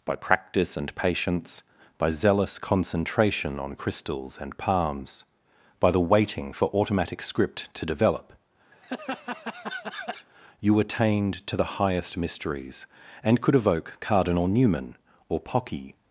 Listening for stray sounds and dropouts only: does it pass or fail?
fail